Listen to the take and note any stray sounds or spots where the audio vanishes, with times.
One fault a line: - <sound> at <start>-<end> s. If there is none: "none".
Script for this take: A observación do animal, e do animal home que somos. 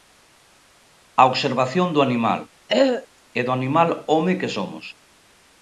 - throat clearing at 2.7-3.1 s